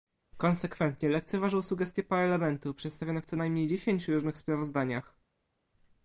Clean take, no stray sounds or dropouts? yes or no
yes